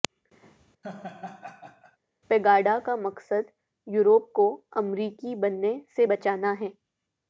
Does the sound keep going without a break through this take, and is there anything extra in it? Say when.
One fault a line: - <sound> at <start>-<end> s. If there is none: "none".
- laugh at 0.8-2.0 s